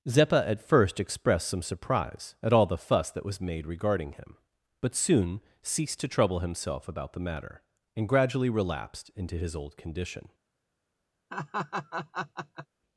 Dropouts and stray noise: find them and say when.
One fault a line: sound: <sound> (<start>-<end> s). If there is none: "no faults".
sound: laugh (11.3-12.7 s)